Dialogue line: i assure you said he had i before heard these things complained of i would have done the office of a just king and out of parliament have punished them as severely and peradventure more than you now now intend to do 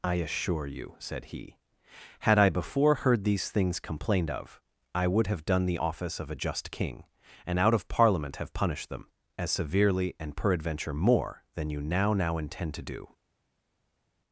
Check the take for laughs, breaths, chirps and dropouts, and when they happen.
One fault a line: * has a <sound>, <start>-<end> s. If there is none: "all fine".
all fine